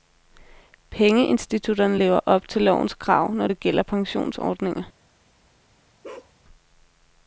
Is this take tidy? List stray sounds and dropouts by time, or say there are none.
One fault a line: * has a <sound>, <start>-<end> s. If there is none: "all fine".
* has a bark, 6.0-6.3 s